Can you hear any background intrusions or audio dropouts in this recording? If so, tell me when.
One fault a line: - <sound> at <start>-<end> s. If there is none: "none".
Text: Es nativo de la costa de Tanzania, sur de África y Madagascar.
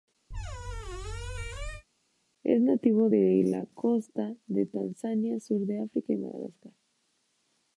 - squeak at 0.3-1.8 s